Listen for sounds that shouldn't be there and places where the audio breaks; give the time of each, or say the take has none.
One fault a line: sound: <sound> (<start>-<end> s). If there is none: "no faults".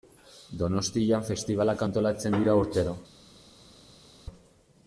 no faults